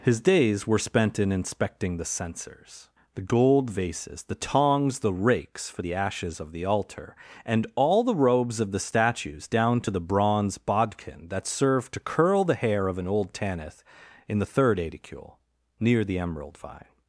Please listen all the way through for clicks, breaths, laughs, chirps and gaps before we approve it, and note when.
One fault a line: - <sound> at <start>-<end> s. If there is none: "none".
none